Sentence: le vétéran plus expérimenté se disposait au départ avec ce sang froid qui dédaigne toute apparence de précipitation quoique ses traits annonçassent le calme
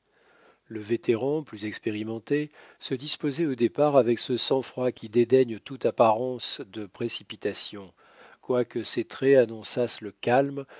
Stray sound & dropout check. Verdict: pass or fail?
pass